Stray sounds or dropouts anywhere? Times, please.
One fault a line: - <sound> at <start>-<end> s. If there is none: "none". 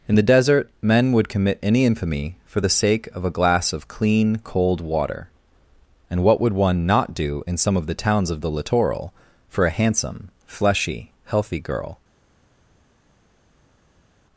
none